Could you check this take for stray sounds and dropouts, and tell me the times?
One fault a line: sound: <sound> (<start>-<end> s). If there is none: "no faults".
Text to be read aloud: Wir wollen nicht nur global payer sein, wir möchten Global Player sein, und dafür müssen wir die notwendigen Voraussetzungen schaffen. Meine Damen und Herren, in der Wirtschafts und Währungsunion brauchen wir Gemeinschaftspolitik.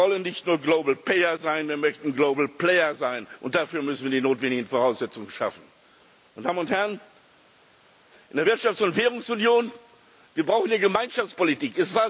no faults